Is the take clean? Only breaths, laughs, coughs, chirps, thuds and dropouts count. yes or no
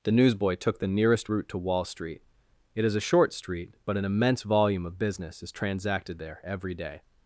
yes